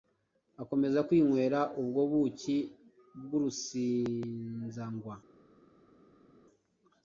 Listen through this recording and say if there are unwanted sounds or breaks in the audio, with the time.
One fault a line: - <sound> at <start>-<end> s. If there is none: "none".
none